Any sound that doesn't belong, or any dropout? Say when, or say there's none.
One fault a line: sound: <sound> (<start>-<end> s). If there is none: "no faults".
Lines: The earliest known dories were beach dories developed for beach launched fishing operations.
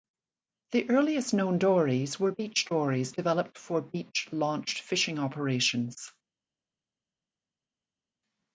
no faults